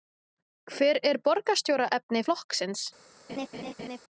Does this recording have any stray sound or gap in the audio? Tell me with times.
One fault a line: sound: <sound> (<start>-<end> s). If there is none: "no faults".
sound: laugh (3.3-4.0 s)